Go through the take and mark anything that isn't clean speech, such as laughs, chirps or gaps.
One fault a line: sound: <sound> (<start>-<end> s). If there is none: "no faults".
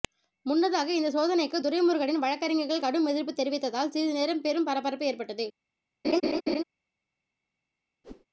sound: laugh (6.0-6.6 s)
sound: whoosh (8.0-8.3 s)